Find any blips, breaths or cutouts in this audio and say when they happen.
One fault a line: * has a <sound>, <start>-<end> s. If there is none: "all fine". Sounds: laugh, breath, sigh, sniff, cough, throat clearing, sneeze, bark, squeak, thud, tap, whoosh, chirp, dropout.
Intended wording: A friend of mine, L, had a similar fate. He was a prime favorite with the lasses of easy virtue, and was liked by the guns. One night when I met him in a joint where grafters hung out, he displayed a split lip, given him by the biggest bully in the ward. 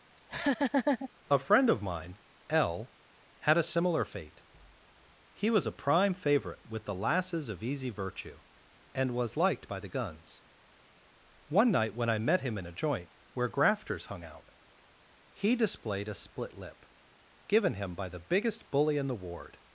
* has a laugh, 0.2-1.1 s